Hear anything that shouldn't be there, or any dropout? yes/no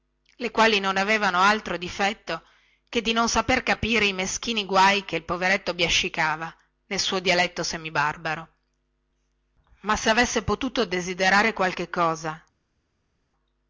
no